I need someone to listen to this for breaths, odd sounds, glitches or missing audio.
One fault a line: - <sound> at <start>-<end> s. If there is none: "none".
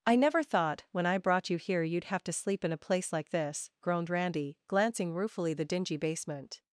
none